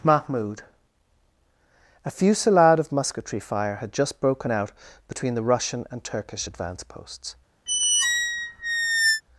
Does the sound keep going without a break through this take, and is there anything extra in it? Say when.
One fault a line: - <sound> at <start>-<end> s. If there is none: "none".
- squeak at 7.7-9.2 s